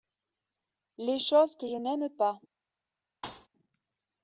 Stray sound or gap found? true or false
true